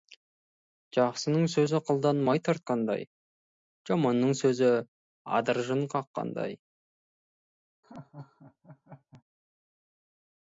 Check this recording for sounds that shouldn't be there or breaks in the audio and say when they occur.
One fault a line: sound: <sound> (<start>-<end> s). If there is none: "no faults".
sound: laugh (7.8-9.2 s)